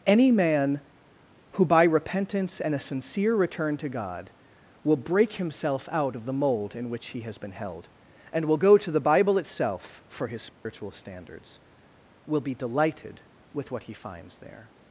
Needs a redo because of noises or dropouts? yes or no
yes